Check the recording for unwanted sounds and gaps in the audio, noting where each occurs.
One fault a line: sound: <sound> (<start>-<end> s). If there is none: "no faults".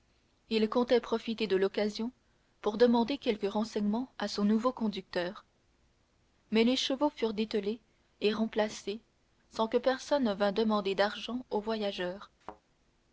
sound: thud (12.4-12.6 s)